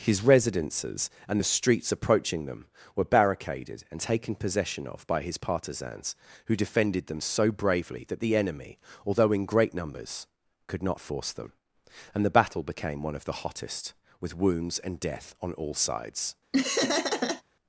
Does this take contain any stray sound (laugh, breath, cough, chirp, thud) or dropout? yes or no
yes